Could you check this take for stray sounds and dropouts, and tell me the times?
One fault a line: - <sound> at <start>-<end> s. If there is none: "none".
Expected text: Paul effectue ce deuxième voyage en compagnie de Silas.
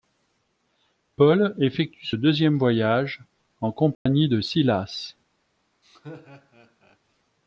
- dropout at 3.9-4.1 s
- laugh at 5.8-7.0 s